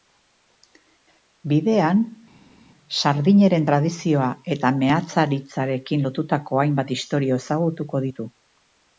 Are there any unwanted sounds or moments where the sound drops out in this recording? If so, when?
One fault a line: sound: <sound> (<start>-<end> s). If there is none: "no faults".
no faults